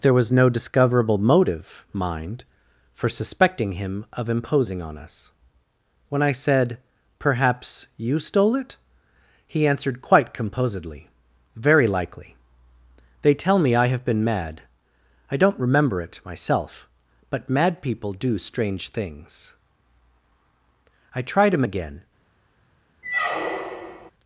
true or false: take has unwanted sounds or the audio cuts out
true